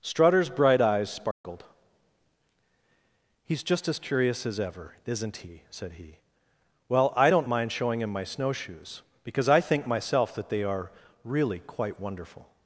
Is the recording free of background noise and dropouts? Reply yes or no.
no